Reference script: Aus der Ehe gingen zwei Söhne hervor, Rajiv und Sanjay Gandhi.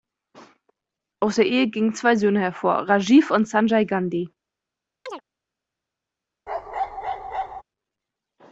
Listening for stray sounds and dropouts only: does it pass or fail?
fail